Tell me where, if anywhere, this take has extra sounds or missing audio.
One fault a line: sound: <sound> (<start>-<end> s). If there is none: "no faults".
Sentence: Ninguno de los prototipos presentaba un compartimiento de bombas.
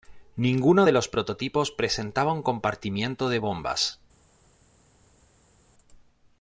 no faults